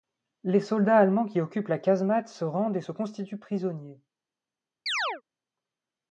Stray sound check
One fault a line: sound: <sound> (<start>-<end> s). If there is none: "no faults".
sound: chirp (4.9-5.2 s)